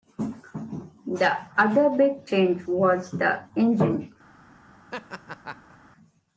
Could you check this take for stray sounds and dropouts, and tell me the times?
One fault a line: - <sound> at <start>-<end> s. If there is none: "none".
- laugh at 4.9-5.8 s